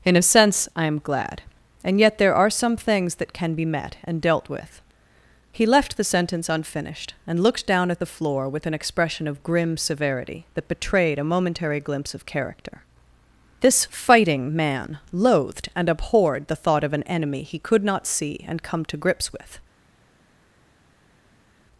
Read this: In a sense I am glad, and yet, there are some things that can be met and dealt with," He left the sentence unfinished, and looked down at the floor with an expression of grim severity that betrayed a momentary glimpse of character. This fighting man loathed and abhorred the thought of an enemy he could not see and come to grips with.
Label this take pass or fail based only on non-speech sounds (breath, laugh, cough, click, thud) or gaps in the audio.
pass